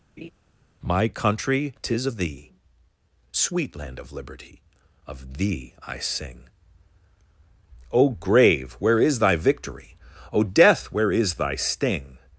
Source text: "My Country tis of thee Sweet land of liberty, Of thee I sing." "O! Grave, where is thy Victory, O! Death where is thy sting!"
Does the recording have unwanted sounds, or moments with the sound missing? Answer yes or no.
yes